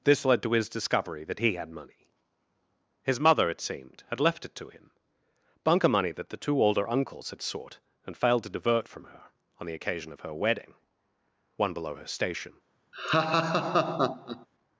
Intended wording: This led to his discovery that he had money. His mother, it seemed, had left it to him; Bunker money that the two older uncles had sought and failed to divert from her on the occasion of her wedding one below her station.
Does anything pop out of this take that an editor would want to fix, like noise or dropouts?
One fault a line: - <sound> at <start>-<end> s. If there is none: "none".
- laugh at 12.9-14.5 s